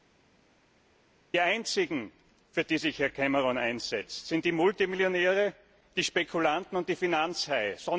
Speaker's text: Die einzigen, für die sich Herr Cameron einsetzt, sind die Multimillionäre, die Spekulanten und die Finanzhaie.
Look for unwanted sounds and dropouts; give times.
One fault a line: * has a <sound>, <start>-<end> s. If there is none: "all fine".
all fine